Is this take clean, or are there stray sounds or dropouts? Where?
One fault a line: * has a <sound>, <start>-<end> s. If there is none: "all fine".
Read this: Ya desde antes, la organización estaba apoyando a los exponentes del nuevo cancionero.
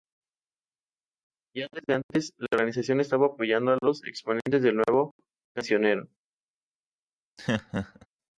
* has a laugh, 7.4-8.1 s